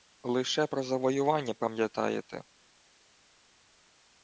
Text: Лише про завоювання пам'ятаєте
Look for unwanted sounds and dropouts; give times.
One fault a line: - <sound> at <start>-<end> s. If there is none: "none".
none